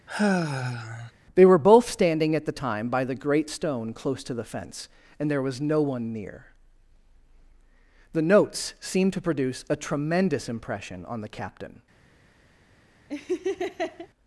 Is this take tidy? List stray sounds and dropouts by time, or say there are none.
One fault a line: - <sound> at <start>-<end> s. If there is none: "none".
- sigh at 0.1-1.1 s
- laugh at 13.1-14.1 s